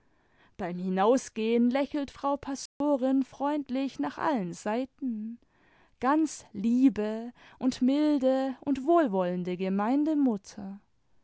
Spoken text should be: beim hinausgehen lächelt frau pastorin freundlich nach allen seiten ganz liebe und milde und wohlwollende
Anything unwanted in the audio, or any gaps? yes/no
yes